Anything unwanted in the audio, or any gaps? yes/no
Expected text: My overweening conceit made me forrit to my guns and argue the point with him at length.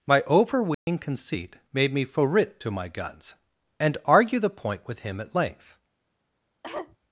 yes